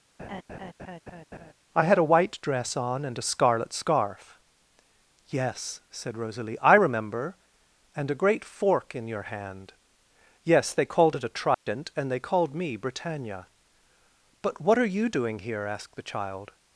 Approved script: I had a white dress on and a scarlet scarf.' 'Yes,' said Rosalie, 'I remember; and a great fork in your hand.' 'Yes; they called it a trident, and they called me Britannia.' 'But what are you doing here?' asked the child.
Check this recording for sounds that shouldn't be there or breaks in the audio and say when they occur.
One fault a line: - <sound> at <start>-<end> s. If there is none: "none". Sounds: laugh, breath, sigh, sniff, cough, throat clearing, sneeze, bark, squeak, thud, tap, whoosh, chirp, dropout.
- laugh at 0.2-1.5 s
- dropout at 11.5-11.7 s